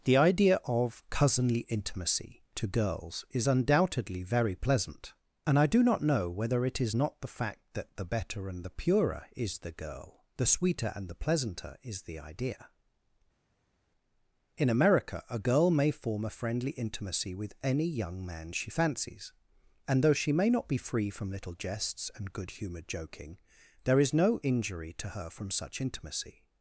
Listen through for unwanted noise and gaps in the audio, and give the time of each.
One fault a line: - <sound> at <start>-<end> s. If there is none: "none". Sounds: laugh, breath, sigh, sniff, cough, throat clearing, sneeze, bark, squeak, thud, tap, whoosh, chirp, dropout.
none